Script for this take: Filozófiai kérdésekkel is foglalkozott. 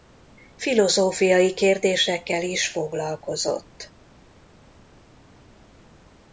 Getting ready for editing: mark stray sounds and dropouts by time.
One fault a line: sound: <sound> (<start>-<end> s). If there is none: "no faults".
no faults